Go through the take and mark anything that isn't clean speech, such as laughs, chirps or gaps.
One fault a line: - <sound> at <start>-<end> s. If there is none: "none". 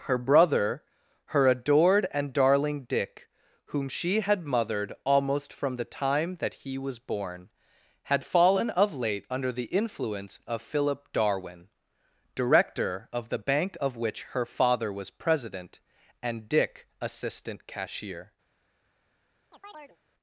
- chirp at 19.5-20.0 s